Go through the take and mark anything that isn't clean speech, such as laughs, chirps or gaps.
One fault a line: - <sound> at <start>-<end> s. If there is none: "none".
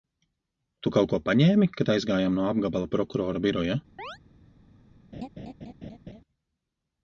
- chirp at 4.0-4.2 s
- laugh at 5.1-6.2 s